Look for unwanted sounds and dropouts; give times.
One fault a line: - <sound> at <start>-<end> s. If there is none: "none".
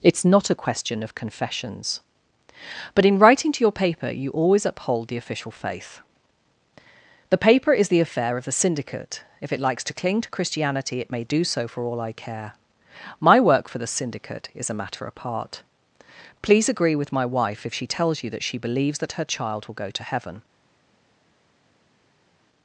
none